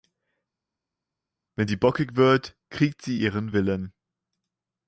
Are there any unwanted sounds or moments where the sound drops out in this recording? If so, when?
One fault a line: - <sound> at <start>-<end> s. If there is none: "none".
none